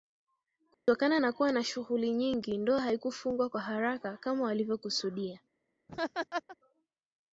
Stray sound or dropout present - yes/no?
yes